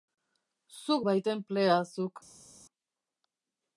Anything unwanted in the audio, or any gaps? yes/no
no